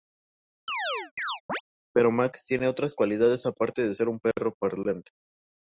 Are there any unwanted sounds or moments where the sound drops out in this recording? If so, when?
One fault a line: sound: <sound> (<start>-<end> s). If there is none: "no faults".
sound: chirp (0.7-1.6 s)